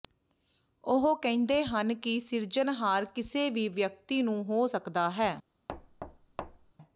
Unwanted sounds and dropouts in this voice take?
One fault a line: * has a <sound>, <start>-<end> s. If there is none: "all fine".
* has a thud, 5.7-6.7 s